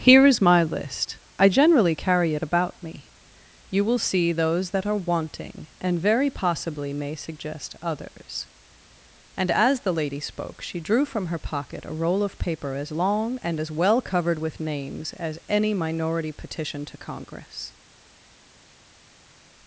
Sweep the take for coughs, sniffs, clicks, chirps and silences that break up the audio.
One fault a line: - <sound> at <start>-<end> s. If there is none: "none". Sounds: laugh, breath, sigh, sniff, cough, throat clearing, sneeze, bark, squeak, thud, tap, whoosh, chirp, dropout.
none